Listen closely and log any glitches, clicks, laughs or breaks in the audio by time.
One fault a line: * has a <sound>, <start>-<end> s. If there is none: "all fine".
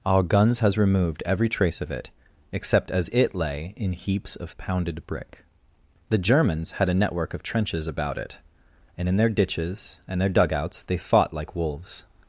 all fine